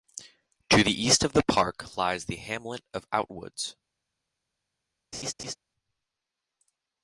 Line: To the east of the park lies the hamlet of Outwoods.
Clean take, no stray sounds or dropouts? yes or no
no